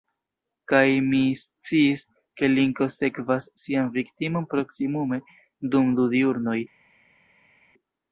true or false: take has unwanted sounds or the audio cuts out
false